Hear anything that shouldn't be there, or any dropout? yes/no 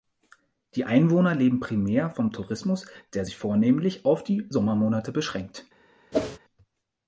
yes